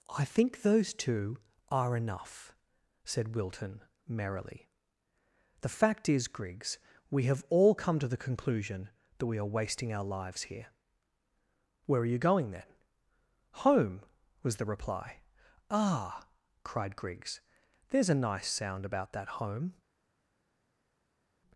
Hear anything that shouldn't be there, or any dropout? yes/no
no